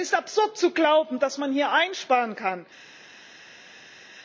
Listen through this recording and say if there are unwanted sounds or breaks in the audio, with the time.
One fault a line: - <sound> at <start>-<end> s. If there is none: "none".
none